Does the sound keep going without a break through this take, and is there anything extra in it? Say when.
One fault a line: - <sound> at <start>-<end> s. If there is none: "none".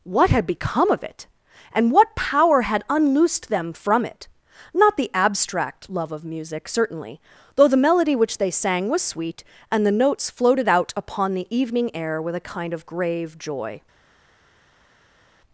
none